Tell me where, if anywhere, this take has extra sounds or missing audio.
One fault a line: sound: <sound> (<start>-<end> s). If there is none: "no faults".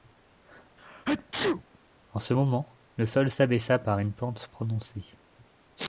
sound: sneeze (0.8-1.8 s)